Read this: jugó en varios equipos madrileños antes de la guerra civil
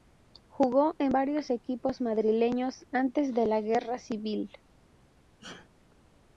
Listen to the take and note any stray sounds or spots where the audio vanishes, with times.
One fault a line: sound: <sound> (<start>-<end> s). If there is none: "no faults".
sound: sneeze (5.4-5.7 s)